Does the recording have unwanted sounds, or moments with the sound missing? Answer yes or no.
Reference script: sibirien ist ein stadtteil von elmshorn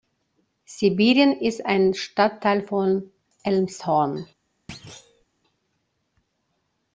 yes